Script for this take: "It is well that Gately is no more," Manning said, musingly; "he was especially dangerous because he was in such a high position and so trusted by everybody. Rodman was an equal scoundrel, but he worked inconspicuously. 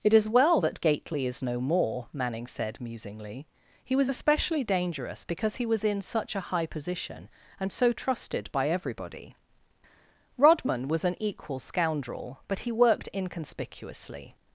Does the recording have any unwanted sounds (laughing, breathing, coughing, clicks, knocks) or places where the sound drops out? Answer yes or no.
no